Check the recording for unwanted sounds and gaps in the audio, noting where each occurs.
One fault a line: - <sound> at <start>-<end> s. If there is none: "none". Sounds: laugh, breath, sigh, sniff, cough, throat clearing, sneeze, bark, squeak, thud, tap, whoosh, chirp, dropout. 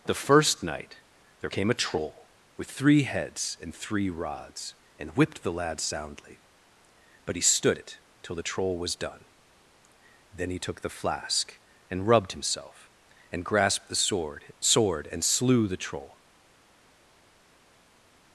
none